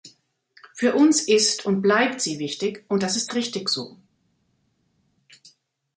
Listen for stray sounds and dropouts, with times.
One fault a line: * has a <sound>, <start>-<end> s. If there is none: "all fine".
all fine